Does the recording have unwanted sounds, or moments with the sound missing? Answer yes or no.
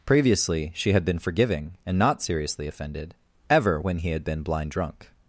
no